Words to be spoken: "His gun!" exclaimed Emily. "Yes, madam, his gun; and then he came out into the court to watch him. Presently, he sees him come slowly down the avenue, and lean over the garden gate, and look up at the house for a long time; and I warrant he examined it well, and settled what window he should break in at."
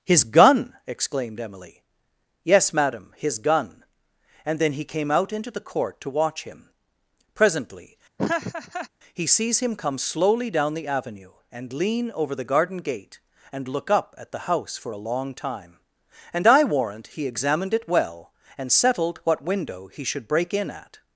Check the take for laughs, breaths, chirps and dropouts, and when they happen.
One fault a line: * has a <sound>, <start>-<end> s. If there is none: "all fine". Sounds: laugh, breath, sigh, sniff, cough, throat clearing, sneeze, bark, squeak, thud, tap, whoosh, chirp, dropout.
* has a laugh, 8.2-8.9 s